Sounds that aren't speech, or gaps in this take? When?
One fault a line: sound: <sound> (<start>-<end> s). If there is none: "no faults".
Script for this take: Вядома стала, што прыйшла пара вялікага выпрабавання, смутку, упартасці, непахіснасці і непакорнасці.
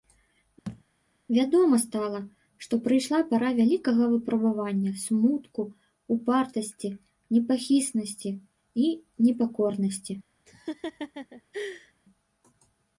sound: thud (0.6-0.8 s)
sound: laugh (10.5-11.9 s)